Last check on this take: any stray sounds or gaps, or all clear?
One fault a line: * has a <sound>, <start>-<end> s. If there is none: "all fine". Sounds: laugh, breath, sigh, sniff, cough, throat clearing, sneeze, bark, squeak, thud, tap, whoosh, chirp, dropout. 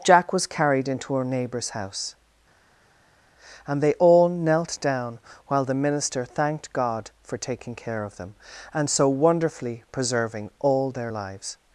all fine